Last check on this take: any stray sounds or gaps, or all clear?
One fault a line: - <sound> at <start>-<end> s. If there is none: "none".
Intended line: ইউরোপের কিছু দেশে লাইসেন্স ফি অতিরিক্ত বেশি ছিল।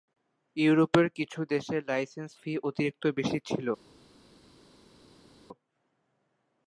none